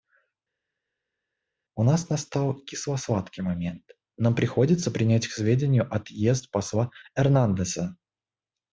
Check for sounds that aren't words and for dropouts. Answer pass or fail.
pass